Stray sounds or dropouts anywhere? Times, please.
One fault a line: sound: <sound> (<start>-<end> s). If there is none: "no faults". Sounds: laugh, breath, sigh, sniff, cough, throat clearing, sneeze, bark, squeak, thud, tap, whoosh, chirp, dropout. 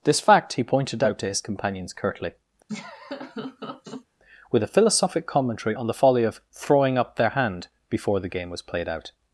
sound: laugh (2.7-4.1 s)